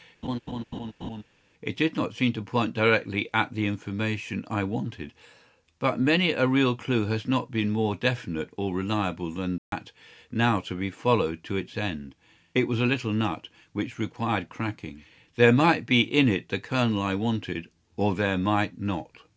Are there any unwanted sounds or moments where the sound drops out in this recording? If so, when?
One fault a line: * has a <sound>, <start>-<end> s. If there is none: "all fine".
* has a laugh, 0.2-1.2 s
* has a dropout, 9.6-9.7 s